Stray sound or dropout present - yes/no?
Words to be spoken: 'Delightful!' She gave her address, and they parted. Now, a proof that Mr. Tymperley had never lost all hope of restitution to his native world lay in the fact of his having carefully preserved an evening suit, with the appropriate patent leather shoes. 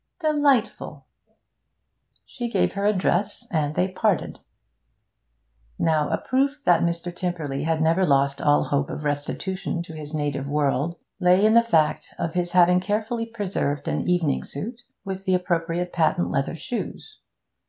no